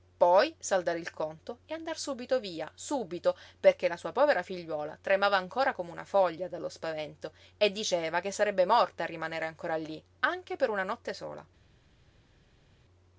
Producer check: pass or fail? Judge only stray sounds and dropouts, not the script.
pass